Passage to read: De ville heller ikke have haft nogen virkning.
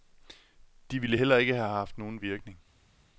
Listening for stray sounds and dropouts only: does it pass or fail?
pass